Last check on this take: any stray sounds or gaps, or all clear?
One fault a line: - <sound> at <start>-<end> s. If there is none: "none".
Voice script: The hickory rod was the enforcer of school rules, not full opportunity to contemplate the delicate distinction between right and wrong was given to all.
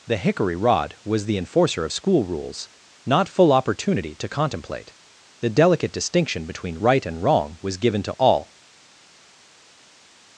none